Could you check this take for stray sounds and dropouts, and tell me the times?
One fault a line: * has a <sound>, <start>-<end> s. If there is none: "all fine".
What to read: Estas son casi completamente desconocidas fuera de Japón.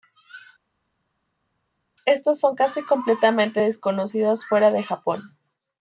all fine